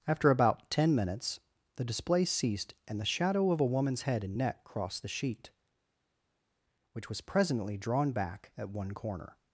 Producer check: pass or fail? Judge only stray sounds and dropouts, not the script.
pass